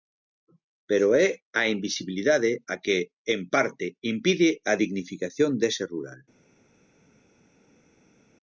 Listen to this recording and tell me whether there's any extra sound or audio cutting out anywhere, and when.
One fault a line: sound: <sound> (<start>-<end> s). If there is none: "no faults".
no faults